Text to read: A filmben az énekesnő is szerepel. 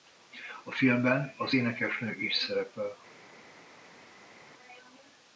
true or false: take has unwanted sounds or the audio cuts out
false